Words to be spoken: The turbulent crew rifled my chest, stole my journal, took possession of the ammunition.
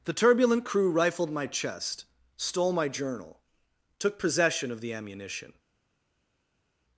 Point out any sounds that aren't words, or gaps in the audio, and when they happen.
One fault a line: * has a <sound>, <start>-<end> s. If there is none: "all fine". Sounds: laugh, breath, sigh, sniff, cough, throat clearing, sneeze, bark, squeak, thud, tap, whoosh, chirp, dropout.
all fine